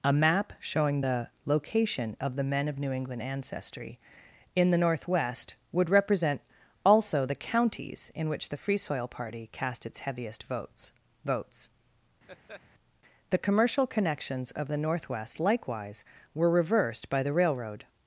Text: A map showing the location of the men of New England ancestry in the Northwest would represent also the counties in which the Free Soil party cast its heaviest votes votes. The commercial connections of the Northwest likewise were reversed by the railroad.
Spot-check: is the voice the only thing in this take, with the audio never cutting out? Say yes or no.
no